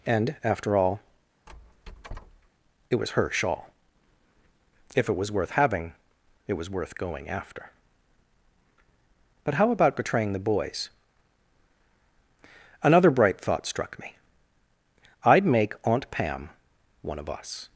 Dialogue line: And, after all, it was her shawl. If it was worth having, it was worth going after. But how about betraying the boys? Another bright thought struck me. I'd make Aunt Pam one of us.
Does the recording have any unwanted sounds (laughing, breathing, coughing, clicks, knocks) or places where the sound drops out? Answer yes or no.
yes